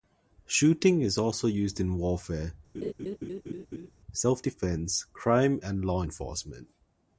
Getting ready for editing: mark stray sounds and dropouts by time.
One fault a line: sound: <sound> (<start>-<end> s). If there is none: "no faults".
sound: laugh (2.7-3.9 s)